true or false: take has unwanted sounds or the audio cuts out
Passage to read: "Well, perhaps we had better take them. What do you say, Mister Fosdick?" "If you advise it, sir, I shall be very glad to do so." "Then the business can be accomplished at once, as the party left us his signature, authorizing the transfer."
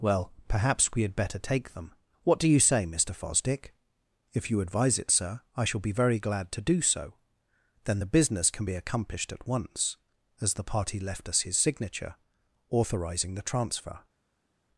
false